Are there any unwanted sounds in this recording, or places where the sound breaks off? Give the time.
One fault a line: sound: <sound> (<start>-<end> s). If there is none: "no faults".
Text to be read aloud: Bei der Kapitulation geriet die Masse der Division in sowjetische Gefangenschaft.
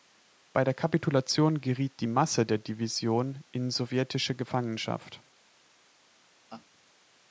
sound: laugh (6.5-6.7 s)